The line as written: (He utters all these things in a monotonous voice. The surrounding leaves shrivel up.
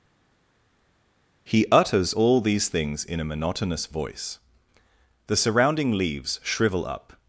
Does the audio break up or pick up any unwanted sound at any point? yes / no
no